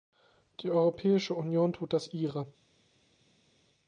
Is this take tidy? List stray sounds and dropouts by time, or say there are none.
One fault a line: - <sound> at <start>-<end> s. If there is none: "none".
none